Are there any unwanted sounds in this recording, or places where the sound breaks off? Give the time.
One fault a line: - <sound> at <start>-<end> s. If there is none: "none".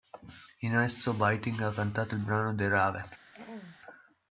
- throat clearing at 3.3-3.8 s